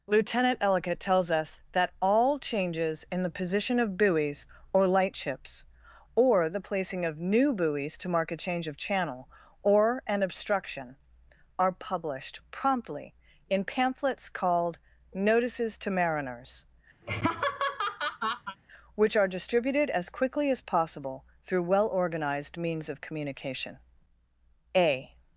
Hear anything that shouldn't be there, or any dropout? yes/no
yes